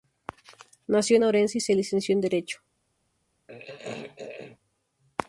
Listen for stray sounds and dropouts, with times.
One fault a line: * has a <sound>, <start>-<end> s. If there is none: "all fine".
* has a throat clearing, 3.5-4.6 s